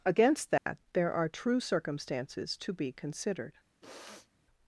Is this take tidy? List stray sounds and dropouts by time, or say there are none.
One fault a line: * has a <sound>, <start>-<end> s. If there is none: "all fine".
* has a dropout, 0.6-0.7 s
* has a sniff, 3.8-4.3 s